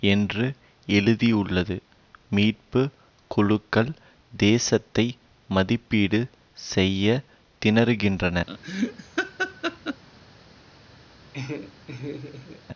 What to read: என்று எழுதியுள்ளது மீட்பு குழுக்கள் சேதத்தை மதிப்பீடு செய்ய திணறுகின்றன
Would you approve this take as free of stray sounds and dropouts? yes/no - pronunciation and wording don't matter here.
no